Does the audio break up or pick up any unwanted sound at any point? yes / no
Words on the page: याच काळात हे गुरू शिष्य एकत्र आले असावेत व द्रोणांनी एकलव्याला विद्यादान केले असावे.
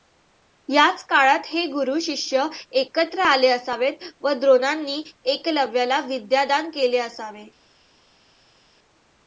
no